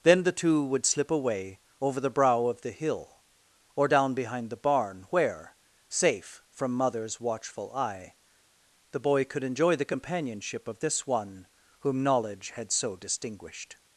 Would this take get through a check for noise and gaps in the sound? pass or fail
pass